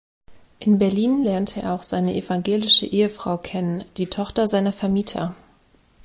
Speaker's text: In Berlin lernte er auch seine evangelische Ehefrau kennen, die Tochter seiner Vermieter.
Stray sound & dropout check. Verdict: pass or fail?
pass